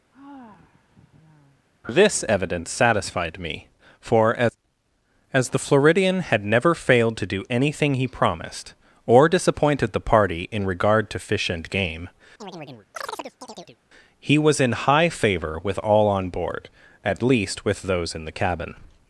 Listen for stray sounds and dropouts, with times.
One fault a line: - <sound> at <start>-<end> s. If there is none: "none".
- sigh at 0.1-1.7 s
- chirp at 12.4-13.8 s